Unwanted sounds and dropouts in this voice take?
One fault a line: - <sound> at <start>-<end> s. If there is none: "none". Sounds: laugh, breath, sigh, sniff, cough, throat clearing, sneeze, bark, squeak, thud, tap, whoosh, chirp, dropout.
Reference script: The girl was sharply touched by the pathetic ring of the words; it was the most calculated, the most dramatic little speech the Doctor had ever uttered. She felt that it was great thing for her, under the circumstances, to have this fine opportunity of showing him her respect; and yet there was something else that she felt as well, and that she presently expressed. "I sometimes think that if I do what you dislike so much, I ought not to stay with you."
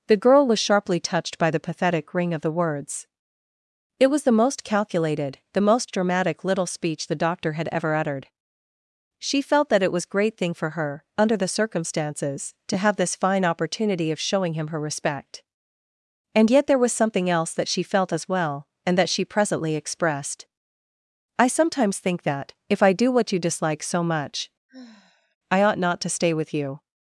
- sigh at 24.7-25.4 s